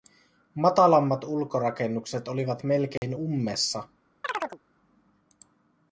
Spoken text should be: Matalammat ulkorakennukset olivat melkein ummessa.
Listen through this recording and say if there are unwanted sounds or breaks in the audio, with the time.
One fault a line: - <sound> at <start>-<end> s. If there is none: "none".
- dropout at 3.0-3.0 s
- chirp at 4.2-4.6 s